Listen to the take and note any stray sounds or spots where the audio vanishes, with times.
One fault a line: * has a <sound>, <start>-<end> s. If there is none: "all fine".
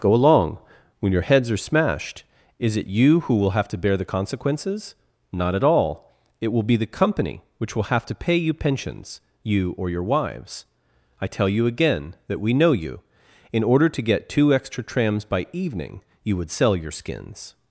all fine